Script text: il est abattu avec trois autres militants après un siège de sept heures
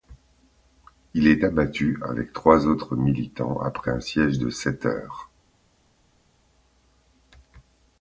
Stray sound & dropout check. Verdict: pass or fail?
pass